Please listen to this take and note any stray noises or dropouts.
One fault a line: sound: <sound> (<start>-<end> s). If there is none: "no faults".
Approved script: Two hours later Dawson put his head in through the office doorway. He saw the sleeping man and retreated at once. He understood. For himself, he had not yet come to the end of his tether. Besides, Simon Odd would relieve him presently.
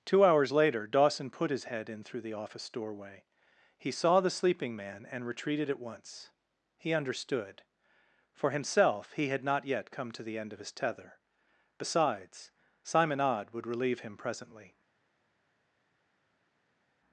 no faults